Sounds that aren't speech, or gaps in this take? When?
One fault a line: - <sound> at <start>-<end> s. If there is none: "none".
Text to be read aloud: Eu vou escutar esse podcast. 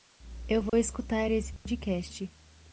- dropout at 0.7-0.7 s
- dropout at 1.6-1.7 s